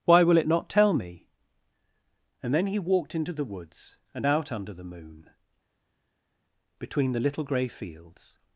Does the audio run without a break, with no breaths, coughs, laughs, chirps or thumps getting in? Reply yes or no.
yes